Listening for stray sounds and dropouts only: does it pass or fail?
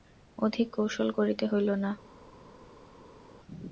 pass